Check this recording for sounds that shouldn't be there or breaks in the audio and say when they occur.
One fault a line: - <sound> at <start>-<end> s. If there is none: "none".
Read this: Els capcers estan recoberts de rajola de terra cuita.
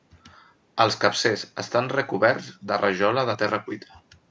none